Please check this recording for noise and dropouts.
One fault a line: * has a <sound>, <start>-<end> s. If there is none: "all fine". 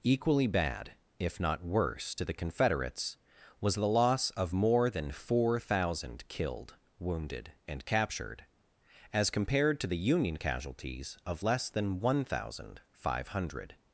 all fine